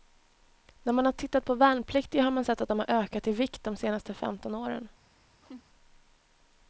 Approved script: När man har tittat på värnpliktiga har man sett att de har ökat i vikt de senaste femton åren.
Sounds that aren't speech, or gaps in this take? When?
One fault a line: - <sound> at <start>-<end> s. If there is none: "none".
- laugh at 5.4-5.6 s